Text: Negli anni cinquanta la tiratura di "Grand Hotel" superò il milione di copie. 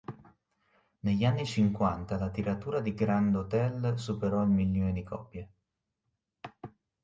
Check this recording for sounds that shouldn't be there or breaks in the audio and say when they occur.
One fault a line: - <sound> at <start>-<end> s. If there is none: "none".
none